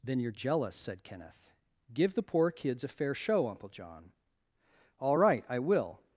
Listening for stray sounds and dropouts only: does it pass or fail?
pass